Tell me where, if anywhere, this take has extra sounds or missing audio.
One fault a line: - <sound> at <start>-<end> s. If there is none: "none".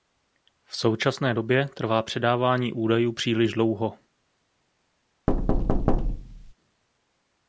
- thud at 5.3-6.5 s